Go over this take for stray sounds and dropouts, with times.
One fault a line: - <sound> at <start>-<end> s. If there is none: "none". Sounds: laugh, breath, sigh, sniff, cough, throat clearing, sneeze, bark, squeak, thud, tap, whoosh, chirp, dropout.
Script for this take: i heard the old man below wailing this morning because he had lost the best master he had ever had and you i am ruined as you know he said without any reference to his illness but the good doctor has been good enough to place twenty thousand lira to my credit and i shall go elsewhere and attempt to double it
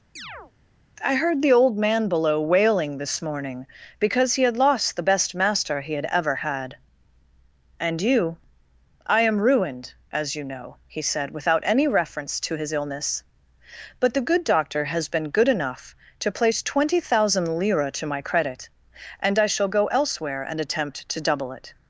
- chirp at 0.2-0.5 s